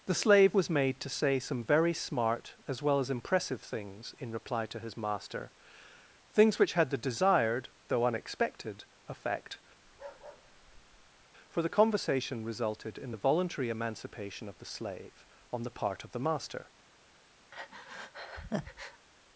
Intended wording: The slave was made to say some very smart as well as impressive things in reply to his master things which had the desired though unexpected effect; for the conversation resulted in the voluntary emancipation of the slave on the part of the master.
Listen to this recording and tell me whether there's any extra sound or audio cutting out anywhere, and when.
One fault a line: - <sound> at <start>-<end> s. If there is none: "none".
- bark at 9.8-11.3 s
- breath at 17.5-19.1 s